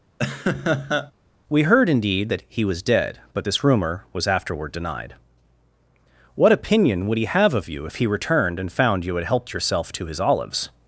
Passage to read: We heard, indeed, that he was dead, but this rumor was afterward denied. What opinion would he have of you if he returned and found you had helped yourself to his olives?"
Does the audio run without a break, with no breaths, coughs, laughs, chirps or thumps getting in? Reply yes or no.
no